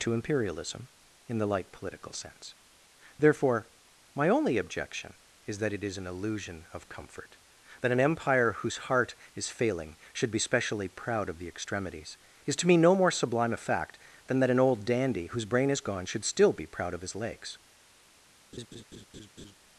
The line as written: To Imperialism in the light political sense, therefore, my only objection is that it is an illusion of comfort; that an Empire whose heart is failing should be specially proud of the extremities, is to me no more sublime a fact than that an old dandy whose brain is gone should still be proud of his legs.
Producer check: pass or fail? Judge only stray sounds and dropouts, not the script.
fail